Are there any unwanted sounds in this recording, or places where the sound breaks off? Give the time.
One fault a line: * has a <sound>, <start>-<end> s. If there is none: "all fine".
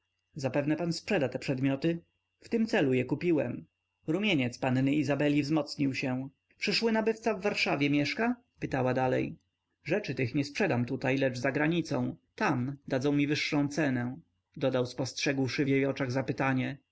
all fine